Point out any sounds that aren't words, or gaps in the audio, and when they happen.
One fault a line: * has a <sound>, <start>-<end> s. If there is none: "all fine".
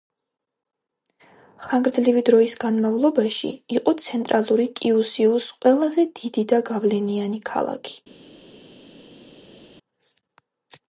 all fine